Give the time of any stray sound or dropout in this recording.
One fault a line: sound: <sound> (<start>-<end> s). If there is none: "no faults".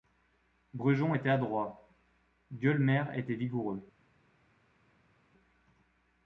no faults